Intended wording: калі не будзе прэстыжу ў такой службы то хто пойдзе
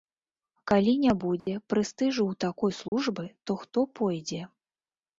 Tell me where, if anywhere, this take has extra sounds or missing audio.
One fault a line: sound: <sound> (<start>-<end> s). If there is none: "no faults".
sound: dropout (1.4-1.5 s)
sound: dropout (2.9-2.9 s)